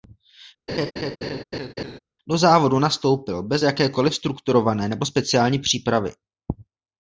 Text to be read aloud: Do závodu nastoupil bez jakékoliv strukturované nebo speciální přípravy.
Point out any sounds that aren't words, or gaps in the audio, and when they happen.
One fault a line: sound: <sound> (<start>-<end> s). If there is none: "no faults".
sound: laugh (0.7-2.0 s)